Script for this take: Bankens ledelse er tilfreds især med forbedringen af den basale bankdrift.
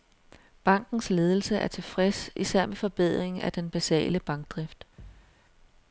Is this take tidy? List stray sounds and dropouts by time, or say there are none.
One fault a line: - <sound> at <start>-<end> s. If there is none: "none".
- thud at 5.0-5.4 s